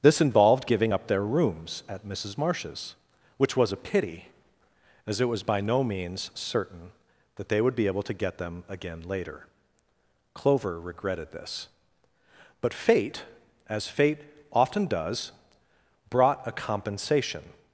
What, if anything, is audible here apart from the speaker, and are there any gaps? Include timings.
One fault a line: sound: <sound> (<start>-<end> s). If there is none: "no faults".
no faults